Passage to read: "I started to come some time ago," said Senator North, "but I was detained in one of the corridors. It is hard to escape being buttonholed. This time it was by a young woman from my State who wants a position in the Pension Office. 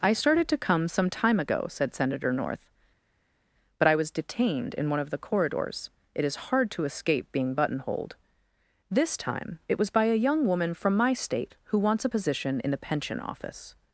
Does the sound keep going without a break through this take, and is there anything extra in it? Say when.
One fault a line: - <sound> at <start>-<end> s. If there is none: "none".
none